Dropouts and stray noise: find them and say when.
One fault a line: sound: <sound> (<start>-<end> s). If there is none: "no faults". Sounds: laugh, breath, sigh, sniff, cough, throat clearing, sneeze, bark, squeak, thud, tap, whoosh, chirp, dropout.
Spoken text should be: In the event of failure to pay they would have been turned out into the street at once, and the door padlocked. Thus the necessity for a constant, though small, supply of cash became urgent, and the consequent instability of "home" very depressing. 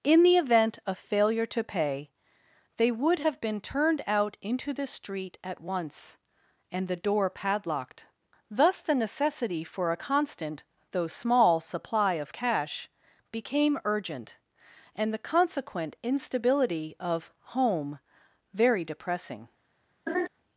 sound: laugh (20.1-20.3 s)